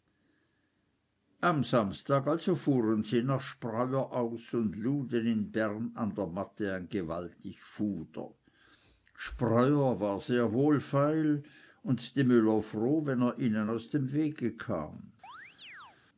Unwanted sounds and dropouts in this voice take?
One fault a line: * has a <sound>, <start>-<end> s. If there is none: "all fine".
* has a chirp, 15.2-16.0 s